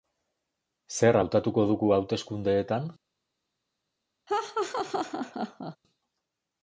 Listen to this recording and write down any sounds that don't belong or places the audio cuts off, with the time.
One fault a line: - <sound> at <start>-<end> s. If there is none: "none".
- laugh at 4.3-5.8 s